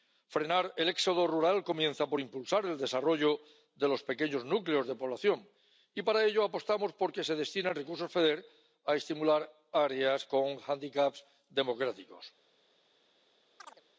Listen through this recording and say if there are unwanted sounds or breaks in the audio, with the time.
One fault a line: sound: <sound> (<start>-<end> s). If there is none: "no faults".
sound: chirp (13.6-13.8 s)